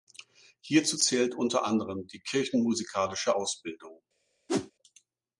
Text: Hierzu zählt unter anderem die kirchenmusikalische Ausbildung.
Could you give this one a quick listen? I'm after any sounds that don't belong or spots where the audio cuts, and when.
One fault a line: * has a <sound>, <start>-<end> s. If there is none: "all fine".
* has a whoosh, 4.5-4.7 s